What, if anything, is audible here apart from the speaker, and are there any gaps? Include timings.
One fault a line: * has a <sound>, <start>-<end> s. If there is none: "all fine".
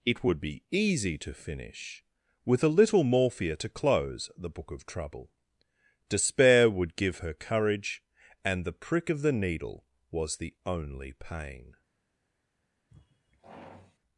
* has a sigh, 12.9-14.0 s